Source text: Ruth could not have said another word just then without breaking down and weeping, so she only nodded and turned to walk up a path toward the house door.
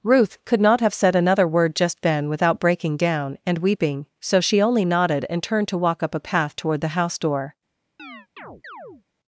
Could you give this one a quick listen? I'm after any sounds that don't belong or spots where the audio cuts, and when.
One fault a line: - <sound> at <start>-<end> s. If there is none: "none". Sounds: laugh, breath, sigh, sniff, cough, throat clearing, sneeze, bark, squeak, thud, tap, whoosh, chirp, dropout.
- chirp at 8.0-9.0 s